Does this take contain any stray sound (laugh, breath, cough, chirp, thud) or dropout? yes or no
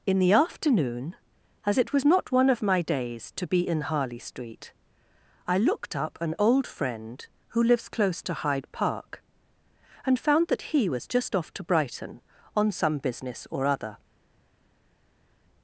no